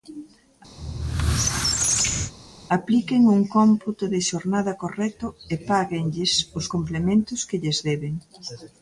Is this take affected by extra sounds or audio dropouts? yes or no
yes